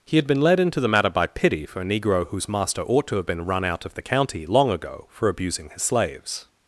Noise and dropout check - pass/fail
pass